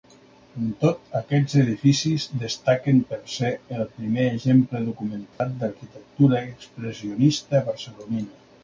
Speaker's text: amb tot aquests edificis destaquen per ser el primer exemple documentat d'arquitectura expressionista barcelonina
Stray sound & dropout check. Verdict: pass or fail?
fail